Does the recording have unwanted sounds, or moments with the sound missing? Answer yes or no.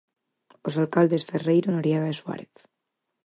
no